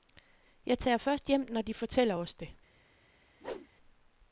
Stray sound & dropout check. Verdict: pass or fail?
fail